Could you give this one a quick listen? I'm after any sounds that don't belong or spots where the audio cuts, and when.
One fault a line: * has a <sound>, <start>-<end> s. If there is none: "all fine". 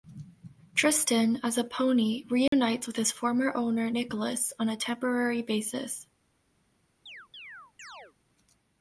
* has a dropout, 2.5-2.5 s
* has a chirp, 7.1-8.1 s